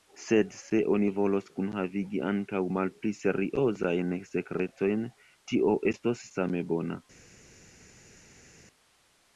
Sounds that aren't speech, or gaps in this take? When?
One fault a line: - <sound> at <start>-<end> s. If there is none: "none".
none